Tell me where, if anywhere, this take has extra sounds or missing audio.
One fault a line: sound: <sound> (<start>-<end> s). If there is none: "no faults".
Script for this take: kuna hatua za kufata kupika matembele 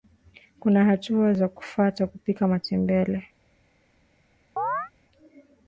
sound: chirp (4.6-4.9 s)